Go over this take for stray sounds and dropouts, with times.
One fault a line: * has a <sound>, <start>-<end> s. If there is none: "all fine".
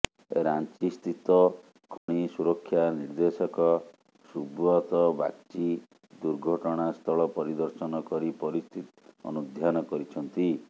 * has a dropout, 2.0-2.1 s